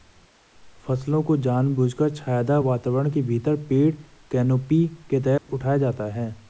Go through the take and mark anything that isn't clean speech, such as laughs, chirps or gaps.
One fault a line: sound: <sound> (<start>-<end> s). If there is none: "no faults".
sound: dropout (5.4-5.5 s)